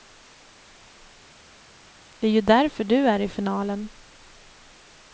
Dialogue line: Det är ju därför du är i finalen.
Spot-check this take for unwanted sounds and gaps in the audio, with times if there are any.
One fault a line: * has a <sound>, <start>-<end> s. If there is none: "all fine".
all fine